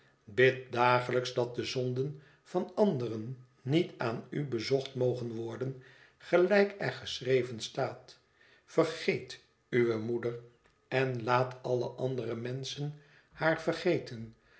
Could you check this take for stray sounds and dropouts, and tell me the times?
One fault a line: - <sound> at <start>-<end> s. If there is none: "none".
none